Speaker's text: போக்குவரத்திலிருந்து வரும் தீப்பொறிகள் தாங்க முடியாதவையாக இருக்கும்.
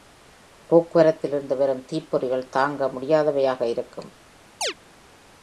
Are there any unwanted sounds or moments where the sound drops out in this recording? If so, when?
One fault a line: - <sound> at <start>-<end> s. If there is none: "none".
- chirp at 4.6-4.7 s